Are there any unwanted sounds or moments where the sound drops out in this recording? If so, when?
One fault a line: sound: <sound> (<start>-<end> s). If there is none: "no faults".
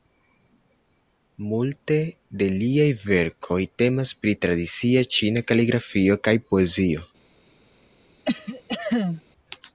sound: cough (8.2-9.2 s)